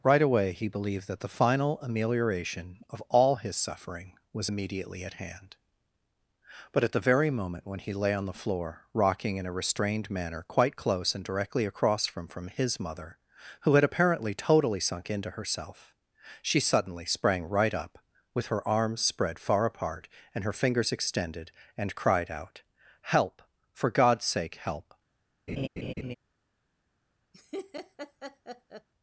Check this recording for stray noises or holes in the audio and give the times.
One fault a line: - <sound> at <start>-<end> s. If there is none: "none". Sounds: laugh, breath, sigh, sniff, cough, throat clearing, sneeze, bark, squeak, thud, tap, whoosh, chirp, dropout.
- laugh at 25.5-26.1 s
- laugh at 27.3-28.9 s